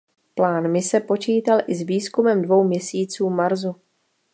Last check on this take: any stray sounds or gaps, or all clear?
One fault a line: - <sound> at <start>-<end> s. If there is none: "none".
none